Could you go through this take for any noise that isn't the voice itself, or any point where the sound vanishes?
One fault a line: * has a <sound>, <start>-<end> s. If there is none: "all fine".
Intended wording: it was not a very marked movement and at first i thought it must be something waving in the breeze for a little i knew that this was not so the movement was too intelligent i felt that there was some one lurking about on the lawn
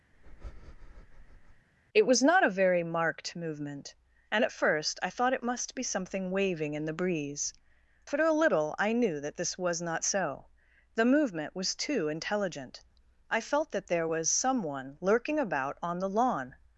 * has a breath, 0.1-1.7 s